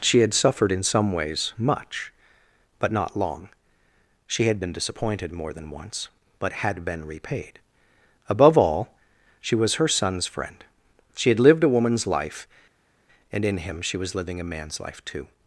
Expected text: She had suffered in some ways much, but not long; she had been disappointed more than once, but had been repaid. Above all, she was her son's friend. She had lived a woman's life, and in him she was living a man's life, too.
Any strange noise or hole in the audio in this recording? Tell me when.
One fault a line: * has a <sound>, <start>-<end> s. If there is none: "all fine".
all fine